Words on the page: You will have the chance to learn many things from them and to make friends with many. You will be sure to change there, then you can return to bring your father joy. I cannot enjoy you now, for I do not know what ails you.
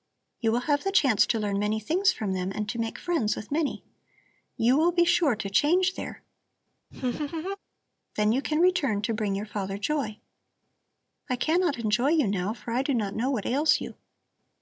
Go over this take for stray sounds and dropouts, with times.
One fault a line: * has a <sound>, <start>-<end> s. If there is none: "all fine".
* has a laugh, 6.9-7.6 s